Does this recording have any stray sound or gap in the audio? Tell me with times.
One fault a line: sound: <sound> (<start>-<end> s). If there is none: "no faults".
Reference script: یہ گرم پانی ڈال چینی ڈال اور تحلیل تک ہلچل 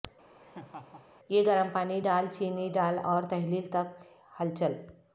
sound: laugh (0.4-1.1 s)